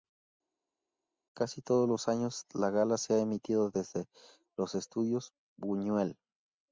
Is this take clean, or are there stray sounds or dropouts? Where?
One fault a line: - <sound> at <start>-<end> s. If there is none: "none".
none